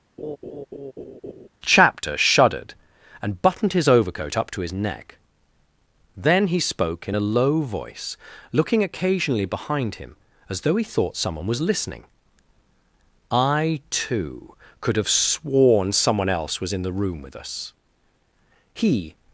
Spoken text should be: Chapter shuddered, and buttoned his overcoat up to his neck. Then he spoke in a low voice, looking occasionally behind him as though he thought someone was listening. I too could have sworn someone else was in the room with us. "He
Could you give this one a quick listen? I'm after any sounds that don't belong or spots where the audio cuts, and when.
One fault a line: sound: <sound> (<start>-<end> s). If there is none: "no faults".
sound: laugh (0.2-1.5 s)